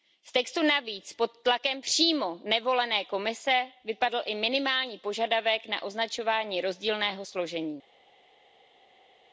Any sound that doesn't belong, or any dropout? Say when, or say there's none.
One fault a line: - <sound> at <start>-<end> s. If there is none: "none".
none